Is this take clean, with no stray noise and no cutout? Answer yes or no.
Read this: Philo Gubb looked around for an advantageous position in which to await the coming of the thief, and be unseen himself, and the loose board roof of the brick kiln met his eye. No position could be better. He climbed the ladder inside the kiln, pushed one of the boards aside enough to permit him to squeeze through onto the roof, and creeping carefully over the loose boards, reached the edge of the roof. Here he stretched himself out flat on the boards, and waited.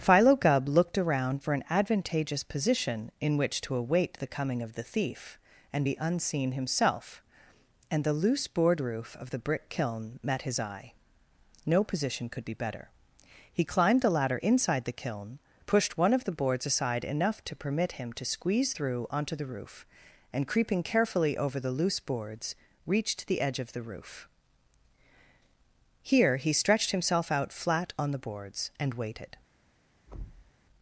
no